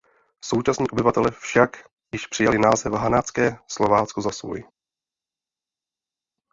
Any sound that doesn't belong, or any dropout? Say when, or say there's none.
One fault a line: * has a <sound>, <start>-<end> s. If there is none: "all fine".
all fine